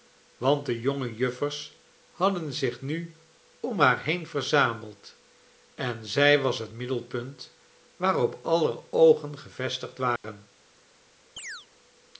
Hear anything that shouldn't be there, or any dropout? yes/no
yes